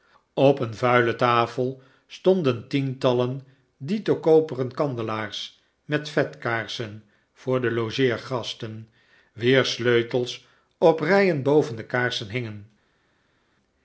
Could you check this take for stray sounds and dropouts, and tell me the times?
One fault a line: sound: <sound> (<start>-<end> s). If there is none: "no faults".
no faults